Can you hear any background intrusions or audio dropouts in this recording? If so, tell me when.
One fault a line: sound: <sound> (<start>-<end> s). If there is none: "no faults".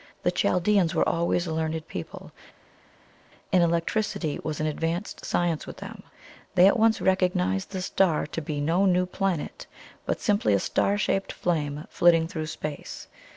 no faults